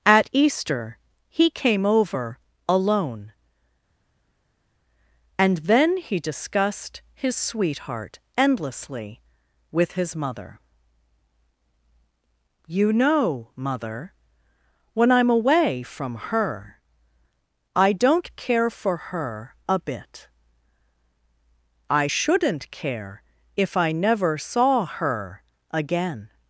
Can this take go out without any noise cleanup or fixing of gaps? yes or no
yes